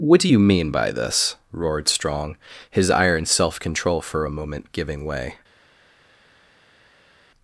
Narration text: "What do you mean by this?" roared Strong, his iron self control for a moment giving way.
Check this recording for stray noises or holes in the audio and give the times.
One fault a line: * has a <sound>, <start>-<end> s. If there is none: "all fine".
all fine